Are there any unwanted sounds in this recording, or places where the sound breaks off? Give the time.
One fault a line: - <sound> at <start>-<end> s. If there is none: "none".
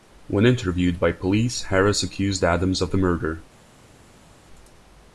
none